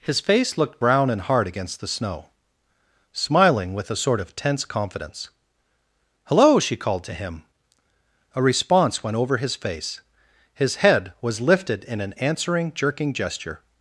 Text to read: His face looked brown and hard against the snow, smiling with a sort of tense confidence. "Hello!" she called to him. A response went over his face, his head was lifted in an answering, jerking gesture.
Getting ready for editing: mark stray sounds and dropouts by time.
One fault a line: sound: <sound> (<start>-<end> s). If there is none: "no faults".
no faults